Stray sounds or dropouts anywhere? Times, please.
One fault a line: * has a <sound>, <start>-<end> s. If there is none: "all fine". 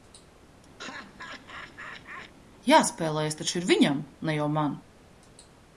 * has a laugh, 0.8-2.3 s